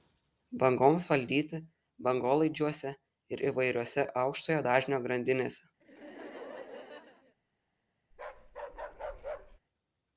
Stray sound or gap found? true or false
true